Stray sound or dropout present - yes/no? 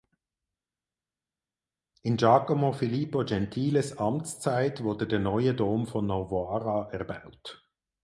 no